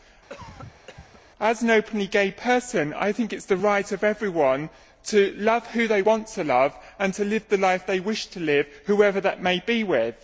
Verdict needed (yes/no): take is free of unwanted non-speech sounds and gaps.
no